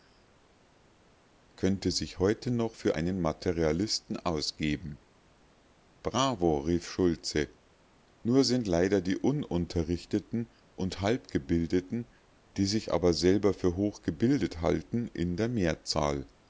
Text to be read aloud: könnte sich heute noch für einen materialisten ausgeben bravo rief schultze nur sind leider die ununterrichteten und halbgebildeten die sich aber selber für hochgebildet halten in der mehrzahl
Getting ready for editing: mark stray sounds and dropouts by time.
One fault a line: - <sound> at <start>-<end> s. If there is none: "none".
none